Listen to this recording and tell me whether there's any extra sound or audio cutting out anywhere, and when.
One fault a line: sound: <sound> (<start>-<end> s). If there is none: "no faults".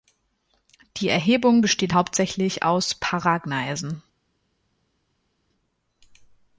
no faults